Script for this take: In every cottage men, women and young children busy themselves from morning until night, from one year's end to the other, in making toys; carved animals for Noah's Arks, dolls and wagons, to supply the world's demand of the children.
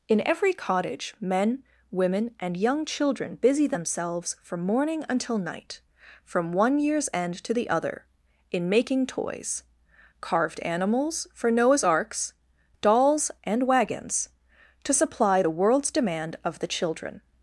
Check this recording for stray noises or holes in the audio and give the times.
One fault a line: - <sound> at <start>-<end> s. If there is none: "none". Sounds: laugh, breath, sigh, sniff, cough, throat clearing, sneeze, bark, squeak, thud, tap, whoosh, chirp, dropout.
none